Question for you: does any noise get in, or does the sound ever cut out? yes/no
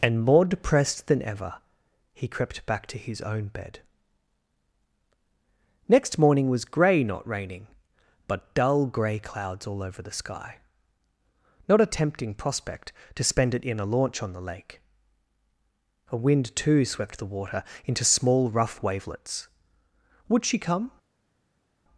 no